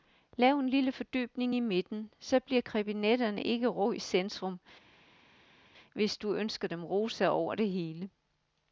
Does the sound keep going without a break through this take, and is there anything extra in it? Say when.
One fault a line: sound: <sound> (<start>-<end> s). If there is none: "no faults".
no faults